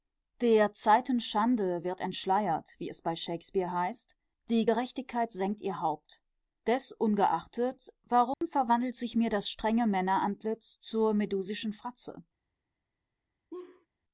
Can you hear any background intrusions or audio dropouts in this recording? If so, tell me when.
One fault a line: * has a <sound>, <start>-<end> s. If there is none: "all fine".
* has a dropout, 8.3-8.4 s
* has a laugh, 13.5-13.9 s